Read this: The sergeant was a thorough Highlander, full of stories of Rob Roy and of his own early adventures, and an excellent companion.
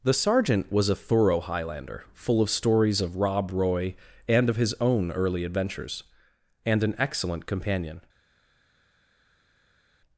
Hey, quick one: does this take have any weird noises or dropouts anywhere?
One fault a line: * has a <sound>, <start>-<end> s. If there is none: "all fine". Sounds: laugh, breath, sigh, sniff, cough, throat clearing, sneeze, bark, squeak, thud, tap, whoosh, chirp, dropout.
all fine